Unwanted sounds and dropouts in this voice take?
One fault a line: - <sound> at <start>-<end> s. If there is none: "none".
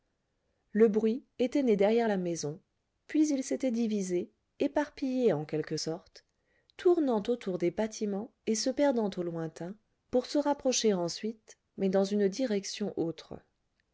none